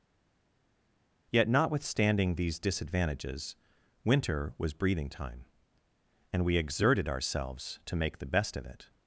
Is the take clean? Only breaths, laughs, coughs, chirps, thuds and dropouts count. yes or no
yes